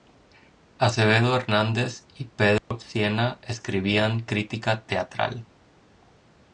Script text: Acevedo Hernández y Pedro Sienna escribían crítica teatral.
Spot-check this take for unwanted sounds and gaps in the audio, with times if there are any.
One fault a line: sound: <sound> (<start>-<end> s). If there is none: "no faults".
sound: dropout (2.6-2.7 s)